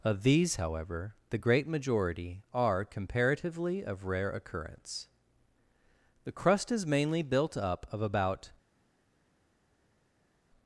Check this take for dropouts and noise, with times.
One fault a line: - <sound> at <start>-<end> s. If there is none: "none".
none